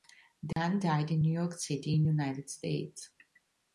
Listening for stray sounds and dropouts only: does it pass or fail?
fail